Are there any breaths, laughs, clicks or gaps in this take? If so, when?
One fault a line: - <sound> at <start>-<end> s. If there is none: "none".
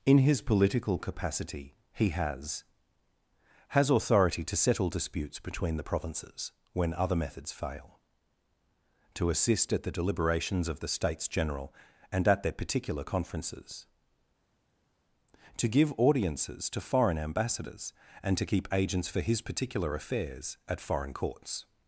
none